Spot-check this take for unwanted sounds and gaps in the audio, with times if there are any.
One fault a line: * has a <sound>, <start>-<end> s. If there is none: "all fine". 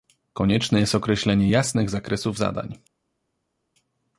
all fine